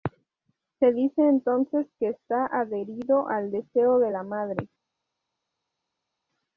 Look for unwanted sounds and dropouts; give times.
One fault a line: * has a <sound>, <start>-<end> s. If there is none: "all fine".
all fine